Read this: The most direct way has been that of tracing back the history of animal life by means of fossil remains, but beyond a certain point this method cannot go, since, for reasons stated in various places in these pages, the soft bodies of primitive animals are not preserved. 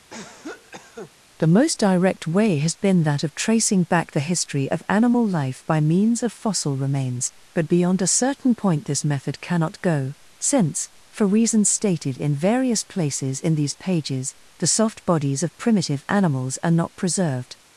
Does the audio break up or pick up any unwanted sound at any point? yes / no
yes